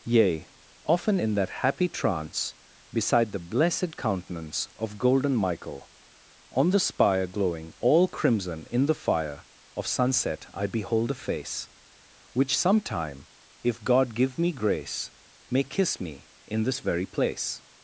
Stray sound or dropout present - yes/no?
no